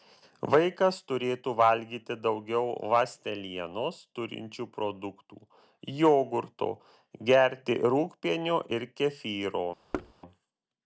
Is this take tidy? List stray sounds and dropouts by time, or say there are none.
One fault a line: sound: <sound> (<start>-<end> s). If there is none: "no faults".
sound: thud (9.9-10.1 s)